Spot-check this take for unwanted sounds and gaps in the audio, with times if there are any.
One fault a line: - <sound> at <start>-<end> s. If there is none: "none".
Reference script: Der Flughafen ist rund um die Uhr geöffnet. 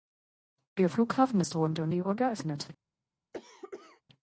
- cough at 3.3-4.0 s